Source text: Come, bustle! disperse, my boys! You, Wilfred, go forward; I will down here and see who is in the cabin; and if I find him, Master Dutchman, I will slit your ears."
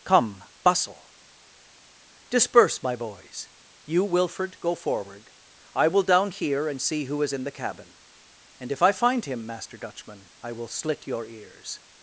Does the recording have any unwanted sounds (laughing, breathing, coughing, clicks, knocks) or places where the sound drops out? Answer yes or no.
no